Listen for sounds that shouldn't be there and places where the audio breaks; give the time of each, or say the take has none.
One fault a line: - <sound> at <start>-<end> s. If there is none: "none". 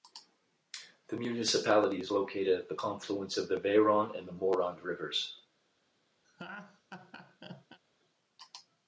- laugh at 6.2-7.8 s